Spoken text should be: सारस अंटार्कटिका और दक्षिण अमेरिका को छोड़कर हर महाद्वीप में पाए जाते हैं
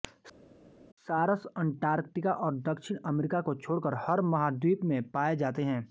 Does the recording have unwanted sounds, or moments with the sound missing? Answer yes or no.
no